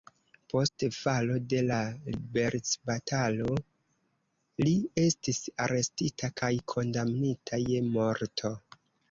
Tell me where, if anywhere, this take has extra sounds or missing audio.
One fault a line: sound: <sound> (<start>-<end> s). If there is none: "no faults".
no faults